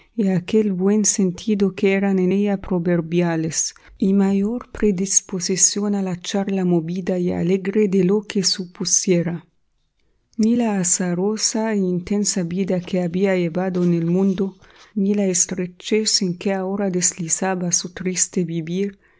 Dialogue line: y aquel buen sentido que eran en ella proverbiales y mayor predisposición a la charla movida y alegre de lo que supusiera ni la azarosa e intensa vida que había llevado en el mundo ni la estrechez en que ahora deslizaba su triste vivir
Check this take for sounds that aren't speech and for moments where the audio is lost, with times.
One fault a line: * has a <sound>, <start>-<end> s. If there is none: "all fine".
all fine